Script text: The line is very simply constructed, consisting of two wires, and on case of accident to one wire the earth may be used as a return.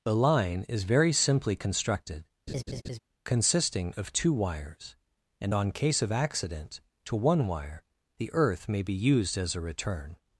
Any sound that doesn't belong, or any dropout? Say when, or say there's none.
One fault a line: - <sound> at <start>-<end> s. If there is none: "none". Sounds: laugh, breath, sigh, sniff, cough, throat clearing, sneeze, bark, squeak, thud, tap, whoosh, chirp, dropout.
- laugh at 2.5-3.0 s